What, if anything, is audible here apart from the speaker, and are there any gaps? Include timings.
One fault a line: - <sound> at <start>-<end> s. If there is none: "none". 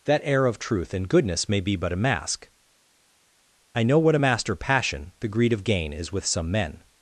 none